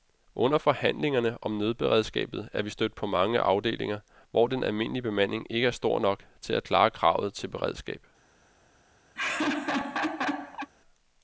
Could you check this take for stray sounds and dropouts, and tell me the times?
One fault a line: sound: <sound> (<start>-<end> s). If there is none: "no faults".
sound: laugh (9.1-10.7 s)